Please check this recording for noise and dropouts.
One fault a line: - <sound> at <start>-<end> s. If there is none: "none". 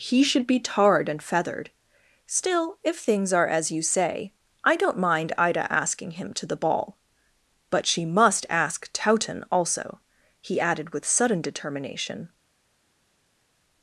none